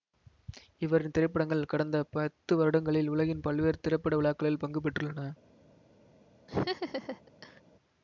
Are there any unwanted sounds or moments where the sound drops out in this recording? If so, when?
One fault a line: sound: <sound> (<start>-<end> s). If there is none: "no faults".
sound: laugh (6.5-7.6 s)